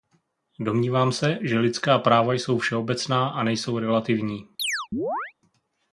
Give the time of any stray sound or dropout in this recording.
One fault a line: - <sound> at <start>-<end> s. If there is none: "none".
- chirp at 4.6-5.3 s